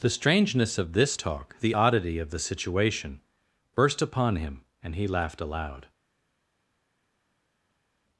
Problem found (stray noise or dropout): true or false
false